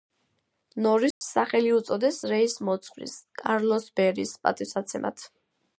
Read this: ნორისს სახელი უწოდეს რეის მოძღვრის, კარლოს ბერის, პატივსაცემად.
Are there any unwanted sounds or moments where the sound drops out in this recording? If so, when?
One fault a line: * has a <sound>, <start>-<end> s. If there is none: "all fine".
* has a dropout, 1.1-1.2 s